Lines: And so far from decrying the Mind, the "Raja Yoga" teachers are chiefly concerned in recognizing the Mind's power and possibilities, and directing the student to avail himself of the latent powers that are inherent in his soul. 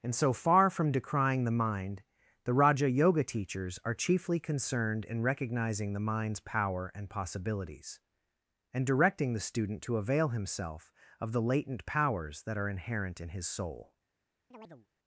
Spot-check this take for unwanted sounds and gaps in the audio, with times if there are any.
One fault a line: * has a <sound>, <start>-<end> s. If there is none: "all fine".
* has a chirp, 14.5-14.9 s